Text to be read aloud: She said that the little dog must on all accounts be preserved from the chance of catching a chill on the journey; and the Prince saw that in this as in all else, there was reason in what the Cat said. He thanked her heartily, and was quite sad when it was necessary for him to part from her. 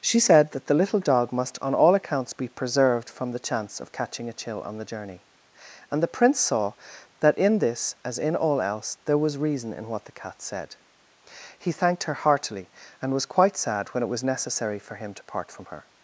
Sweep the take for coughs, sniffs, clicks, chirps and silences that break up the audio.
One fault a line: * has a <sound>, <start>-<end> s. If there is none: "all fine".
all fine